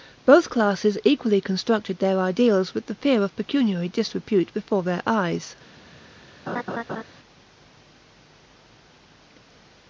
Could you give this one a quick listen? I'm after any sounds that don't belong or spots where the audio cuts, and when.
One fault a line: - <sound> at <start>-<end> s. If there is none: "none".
- laugh at 6.5-7.0 s